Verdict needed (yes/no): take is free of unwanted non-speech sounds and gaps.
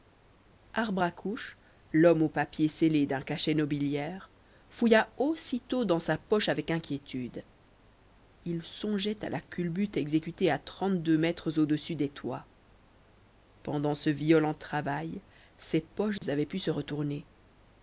no